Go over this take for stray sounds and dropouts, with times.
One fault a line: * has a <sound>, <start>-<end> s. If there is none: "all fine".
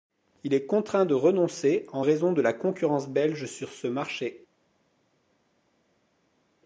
all fine